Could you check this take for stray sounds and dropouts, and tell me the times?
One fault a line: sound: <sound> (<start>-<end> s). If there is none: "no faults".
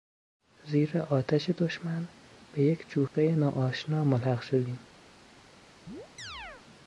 sound: dropout (3.1-3.1 s)
sound: chirp (5.9-6.7 s)